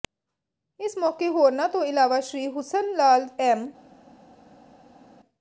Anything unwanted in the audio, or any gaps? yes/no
no